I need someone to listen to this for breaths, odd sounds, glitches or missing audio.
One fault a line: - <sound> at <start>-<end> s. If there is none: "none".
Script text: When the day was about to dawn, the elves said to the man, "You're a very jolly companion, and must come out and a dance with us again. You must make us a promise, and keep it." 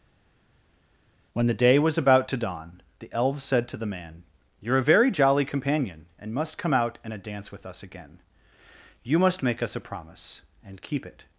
none